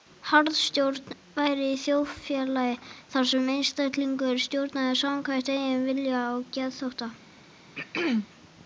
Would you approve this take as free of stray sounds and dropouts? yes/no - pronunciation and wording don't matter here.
no